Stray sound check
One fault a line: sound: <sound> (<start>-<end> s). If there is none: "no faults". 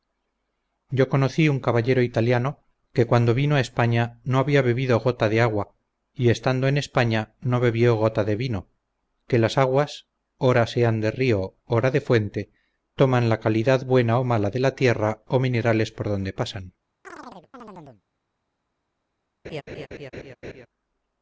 sound: chirp (17.0-18.0 s)
sound: laugh (19.4-20.7 s)